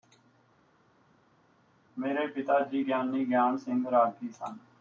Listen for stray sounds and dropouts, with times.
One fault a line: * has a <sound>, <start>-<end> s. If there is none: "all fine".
all fine